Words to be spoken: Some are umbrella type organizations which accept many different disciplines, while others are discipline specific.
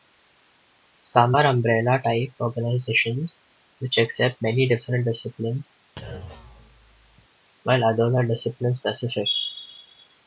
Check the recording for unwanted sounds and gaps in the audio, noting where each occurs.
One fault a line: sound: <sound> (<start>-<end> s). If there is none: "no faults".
sound: thud (6.0-7.3 s)